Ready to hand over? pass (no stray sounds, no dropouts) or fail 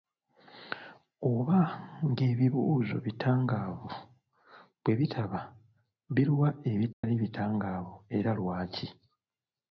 fail